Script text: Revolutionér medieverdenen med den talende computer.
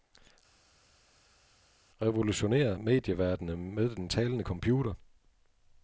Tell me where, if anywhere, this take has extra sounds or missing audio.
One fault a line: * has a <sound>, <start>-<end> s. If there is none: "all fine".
all fine